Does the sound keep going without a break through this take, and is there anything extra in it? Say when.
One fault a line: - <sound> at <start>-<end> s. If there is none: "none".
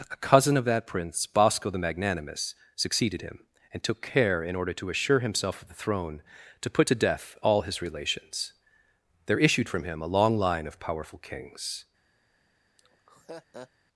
- laugh at 12.8-13.7 s